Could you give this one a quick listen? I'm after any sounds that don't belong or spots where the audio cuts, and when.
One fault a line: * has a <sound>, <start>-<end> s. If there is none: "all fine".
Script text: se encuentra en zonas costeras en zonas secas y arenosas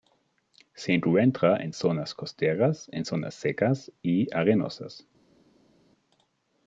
all fine